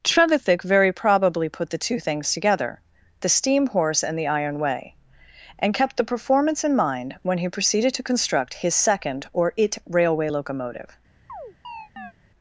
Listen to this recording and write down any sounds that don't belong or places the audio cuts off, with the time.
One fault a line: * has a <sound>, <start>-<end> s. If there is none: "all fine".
* has a chirp, 11.3-12.1 s